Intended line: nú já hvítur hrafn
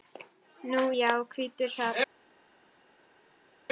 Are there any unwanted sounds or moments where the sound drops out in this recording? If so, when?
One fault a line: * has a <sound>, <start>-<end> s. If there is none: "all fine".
all fine